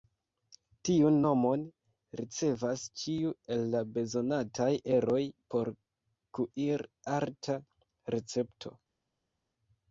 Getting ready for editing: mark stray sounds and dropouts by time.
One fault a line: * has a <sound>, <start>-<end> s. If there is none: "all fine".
all fine